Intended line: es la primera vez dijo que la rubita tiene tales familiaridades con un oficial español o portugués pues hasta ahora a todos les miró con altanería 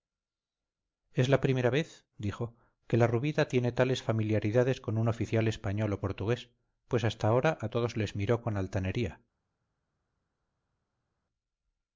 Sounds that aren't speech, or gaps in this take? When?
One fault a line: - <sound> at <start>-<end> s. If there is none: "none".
none